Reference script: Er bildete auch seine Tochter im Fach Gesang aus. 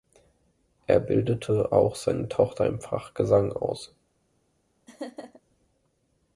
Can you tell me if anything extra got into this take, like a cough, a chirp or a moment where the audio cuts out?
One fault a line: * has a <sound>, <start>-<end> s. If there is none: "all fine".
* has a laugh, 4.9-5.4 s